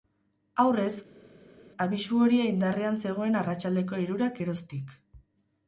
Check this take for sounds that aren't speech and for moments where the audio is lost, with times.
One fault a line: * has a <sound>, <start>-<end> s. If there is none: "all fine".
all fine